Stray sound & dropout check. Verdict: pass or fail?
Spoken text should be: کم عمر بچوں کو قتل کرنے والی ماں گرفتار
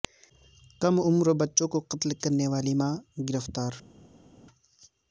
pass